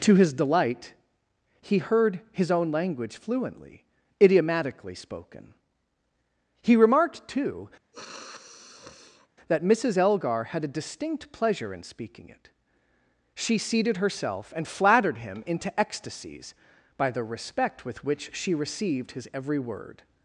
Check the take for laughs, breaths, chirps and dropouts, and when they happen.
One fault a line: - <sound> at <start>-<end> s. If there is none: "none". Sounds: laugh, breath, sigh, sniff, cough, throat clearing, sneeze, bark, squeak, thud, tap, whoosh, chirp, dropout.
- sniff at 7.9-9.3 s